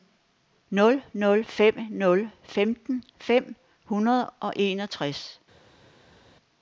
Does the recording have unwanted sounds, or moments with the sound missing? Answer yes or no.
no